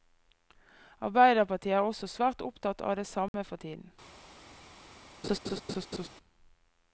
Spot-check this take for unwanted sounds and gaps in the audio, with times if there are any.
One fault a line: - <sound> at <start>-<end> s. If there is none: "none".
- dropout at 3.3-3.3 s
- laugh at 5.2-6.1 s